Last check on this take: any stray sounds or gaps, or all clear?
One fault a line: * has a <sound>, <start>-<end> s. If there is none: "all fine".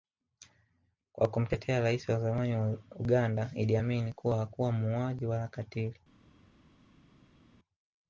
all fine